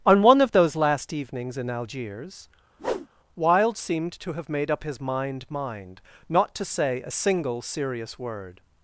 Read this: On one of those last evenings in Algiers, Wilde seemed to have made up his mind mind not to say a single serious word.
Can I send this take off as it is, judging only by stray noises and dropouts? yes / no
no